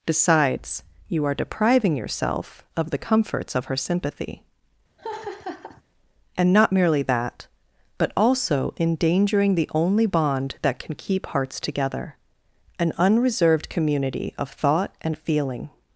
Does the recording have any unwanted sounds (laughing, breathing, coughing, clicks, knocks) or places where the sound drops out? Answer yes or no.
yes